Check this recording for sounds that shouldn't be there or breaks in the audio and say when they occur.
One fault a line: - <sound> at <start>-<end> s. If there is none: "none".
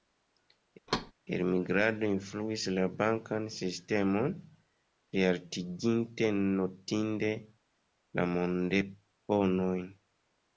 - thud at 0.9-1.1 s